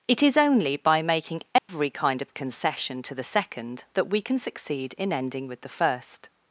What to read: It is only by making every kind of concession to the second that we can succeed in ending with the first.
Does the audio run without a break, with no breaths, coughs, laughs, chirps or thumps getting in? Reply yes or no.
no